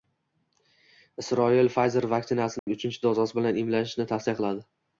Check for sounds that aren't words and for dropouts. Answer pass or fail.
fail